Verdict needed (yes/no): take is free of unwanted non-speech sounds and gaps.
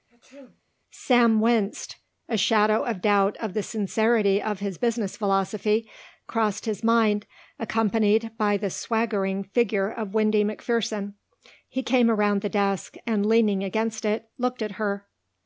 no